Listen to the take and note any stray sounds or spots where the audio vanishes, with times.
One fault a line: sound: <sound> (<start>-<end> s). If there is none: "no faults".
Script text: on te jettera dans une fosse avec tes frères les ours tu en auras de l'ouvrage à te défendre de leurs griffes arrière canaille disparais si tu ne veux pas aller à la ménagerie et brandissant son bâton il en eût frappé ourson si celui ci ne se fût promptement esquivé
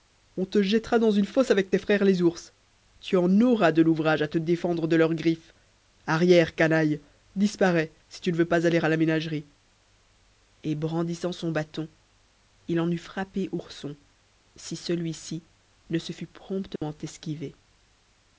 sound: dropout (16.8-16.8 s)